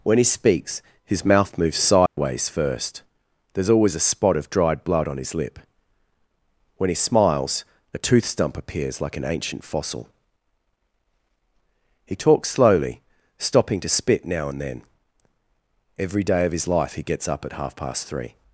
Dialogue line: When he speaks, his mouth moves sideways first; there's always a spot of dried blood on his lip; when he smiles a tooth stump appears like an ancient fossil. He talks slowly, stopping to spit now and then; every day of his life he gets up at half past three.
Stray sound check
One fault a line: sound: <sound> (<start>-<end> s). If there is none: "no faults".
sound: dropout (2.1-2.2 s)